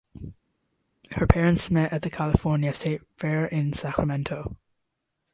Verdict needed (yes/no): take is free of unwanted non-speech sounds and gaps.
yes